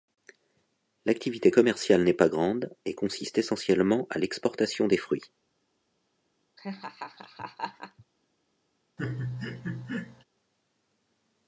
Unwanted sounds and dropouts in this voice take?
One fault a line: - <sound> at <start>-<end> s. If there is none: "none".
- laugh at 6.6-8.0 s
- laugh at 9.0-10.2 s